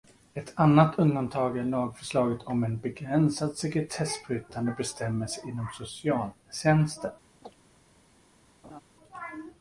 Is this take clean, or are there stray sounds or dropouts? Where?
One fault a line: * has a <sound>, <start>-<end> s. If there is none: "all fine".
* has a chirp, 7.4-7.6 s
* has a laugh, 8.6-8.8 s